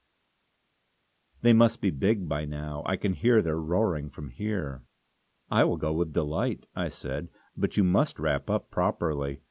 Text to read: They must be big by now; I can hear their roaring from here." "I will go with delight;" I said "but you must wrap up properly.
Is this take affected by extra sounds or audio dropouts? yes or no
no